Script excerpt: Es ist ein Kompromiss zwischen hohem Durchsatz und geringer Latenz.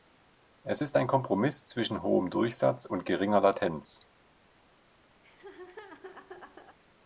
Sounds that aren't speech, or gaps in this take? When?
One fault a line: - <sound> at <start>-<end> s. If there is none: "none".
- laugh at 5.2-6.8 s